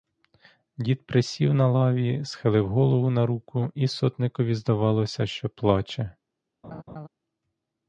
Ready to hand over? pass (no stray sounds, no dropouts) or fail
fail